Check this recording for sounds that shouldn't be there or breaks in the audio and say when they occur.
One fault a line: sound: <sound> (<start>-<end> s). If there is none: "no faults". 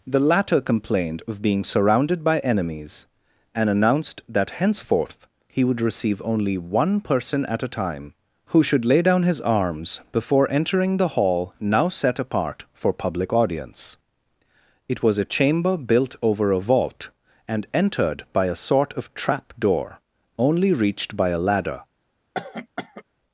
sound: cough (22.3-23.0 s)